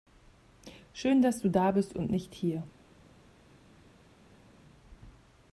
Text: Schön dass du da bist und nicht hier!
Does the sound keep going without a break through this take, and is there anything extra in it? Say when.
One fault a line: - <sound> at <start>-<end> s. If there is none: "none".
none